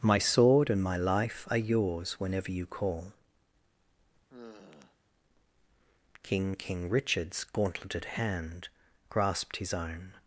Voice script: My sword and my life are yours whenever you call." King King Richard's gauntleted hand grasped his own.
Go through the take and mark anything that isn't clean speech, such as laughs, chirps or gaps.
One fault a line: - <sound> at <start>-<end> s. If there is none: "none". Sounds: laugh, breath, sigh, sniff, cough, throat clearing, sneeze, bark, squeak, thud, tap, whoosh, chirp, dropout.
- sigh at 4.3-5.0 s